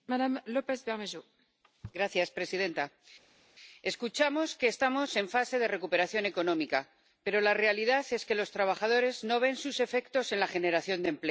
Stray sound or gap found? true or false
false